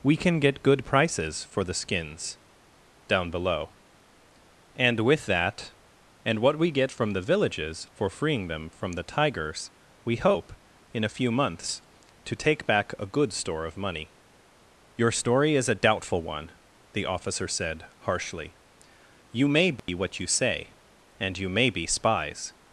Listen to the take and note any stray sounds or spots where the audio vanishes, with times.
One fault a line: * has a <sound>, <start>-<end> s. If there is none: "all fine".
* has a dropout, 19.8-19.9 s